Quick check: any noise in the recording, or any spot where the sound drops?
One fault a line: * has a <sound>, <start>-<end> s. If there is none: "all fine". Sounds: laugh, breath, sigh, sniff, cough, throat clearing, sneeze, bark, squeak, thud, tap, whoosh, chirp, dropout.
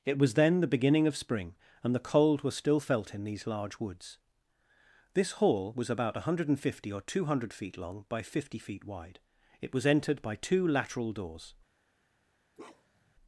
* has a bark, 12.5-13.1 s